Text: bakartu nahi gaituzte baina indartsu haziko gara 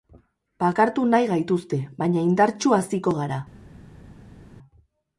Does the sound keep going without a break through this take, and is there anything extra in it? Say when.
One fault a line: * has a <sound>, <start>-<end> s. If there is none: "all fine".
all fine